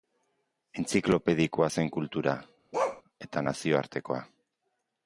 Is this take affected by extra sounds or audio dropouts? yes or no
yes